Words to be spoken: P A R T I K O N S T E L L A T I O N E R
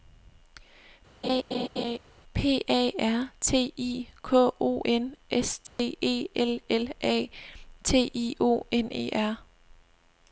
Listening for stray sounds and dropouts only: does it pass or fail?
fail